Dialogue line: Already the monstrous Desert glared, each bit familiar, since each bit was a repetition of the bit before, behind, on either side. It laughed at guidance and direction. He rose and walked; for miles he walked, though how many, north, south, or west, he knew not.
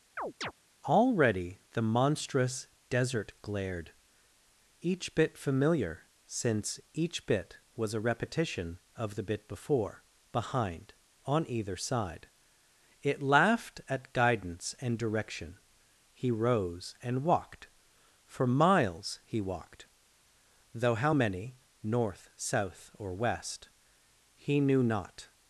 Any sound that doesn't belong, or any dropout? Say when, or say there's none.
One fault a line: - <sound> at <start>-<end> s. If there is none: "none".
- chirp at 0.2-0.5 s